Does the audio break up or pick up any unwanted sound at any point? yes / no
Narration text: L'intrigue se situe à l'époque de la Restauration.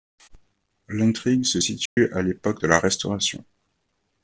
yes